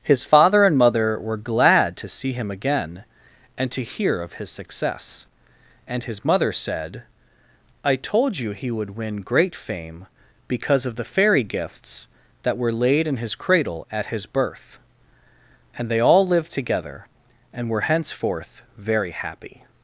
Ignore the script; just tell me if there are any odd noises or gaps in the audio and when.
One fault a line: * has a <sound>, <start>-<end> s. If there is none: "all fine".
all fine